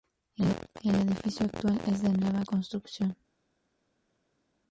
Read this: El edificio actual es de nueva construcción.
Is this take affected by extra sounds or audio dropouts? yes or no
no